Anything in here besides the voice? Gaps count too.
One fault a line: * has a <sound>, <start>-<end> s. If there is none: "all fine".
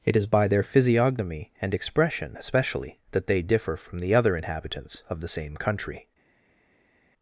all fine